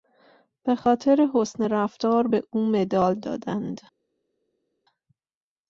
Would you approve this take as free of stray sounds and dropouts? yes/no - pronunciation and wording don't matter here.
yes